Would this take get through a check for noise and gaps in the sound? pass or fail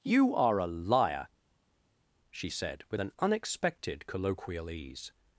pass